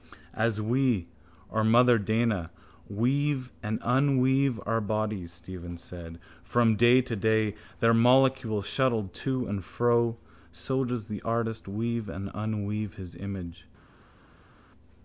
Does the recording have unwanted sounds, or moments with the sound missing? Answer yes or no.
no